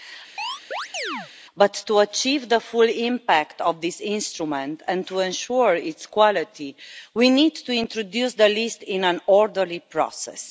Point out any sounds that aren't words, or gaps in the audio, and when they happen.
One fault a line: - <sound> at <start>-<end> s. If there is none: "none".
- chirp at 0.4-1.3 s